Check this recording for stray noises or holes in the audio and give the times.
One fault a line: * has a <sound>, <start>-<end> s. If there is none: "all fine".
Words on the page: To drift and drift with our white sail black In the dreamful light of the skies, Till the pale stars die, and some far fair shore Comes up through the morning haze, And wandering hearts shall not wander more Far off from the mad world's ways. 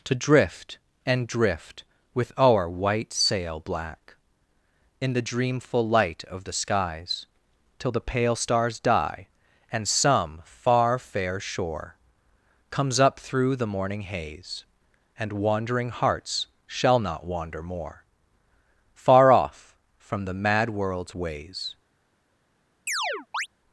* has a chirp, 22.9-23.5 s